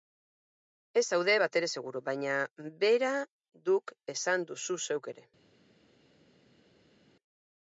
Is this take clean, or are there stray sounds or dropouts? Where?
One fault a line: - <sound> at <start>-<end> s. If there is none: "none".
none